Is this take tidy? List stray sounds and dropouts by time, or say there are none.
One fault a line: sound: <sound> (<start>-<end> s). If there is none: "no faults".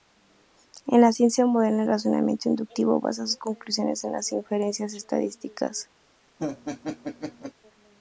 sound: laugh (6.4-7.5 s)